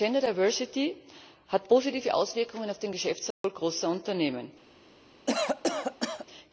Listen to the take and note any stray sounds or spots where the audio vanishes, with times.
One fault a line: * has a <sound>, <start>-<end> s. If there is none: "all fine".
* has a dropout, 3.3-3.4 s
* has a cough, 5.3-6.3 s